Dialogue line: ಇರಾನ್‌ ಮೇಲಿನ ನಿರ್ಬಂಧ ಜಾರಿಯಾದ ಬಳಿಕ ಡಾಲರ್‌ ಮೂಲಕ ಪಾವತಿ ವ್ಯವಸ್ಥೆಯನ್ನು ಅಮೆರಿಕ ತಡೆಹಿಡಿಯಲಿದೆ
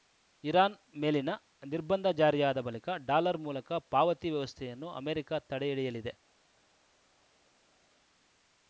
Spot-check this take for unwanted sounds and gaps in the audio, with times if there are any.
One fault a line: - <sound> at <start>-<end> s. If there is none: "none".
none